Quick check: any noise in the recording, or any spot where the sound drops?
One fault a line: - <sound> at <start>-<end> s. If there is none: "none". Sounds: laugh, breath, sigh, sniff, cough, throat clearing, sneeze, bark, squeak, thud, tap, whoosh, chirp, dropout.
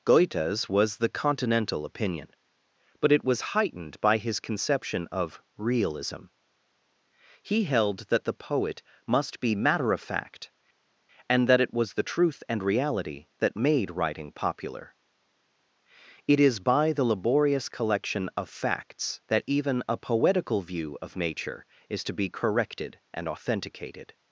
none